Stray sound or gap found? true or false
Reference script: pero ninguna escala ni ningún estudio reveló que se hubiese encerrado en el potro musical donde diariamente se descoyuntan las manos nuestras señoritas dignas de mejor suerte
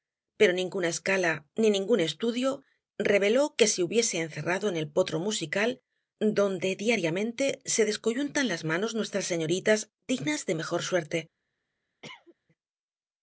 true